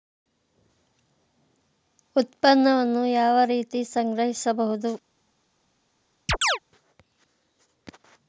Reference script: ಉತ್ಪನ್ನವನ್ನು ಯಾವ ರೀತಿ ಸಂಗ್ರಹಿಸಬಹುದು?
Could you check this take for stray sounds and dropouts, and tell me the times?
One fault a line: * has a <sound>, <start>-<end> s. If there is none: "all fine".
* has a chirp, 6.3-6.6 s